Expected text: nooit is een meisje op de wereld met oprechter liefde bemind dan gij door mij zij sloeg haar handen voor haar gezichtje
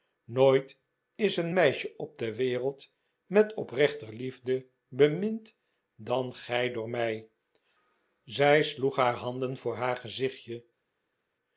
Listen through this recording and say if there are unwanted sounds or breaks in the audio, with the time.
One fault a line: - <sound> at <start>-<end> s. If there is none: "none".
none